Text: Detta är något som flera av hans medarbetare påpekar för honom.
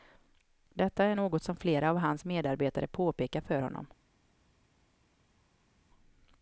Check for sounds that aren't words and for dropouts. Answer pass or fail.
pass